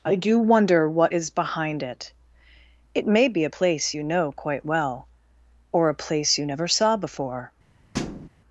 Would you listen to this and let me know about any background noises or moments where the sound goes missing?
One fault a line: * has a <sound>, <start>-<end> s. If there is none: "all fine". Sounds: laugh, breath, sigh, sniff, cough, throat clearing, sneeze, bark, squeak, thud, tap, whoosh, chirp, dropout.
* has a thud, 7.9-8.3 s